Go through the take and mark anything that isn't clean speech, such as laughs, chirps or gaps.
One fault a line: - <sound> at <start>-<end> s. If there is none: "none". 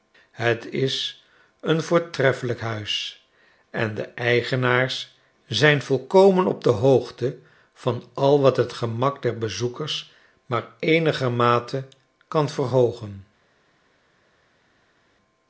none